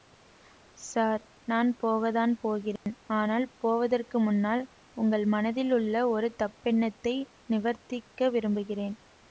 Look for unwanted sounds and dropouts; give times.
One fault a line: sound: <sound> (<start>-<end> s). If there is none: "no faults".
sound: dropout (2.8-2.9 s)